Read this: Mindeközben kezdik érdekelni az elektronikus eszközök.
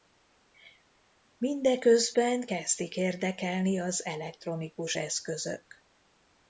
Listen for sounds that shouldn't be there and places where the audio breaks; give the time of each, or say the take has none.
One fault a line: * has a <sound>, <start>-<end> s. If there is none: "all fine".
all fine